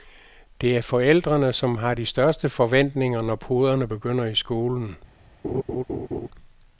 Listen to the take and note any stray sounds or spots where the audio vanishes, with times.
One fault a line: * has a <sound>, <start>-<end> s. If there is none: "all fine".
* has a laugh, 5.4-6.3 s